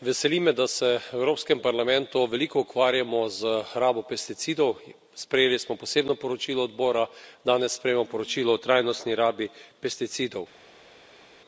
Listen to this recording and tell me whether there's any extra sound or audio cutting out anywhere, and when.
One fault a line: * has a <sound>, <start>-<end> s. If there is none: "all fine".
all fine